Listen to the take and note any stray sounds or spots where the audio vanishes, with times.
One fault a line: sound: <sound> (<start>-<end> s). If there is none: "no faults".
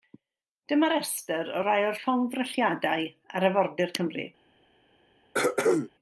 sound: throat clearing (5.3-5.9 s)